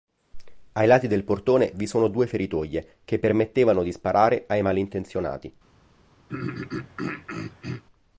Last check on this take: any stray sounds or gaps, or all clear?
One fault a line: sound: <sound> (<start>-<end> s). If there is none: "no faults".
sound: throat clearing (6.3-7.8 s)